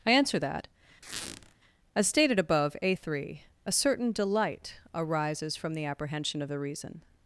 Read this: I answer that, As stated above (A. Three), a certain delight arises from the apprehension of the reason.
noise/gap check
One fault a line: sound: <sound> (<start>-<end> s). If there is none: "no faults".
sound: squeak (1.0-1.5 s)